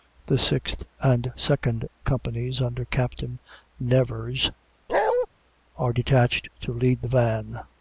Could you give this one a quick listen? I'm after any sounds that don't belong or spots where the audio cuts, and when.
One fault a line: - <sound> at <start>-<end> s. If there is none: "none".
- bark at 4.9-5.3 s